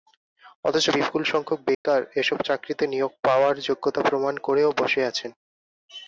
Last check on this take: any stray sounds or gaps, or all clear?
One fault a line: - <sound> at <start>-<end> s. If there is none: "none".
- dropout at 1.7-1.9 s